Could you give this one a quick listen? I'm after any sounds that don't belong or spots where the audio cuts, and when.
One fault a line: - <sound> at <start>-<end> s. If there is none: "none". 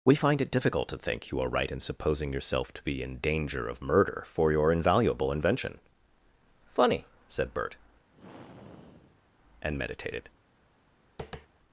- sigh at 8.1-9.2 s
- tap at 11.2-11.5 s